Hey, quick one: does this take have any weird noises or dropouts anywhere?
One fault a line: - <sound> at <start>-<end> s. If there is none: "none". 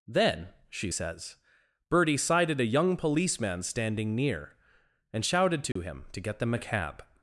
- dropout at 5.7-5.8 s